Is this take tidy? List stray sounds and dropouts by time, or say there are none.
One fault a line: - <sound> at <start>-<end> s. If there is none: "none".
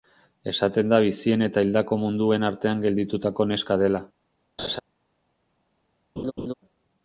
- laugh at 4.6-4.8 s
- laugh at 6.2-6.5 s